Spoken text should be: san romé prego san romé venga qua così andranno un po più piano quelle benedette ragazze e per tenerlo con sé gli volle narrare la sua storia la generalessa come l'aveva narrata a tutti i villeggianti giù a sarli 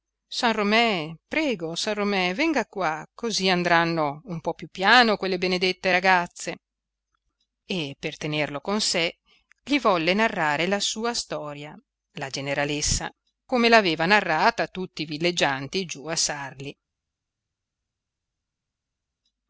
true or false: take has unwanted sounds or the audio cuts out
false